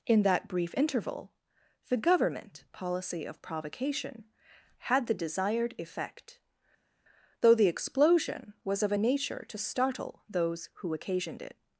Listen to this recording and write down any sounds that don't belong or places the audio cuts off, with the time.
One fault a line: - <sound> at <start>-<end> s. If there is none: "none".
none